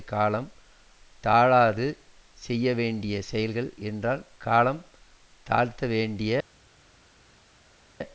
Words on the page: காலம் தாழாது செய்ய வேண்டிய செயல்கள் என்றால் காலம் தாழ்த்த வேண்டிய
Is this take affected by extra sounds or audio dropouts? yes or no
no